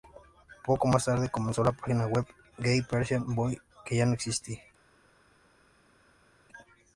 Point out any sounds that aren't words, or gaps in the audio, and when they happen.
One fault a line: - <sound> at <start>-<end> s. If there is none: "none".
none